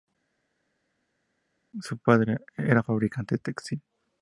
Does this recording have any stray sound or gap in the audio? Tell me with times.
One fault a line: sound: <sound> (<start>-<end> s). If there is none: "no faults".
no faults